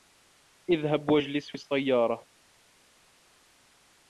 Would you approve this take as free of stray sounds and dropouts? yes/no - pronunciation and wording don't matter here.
yes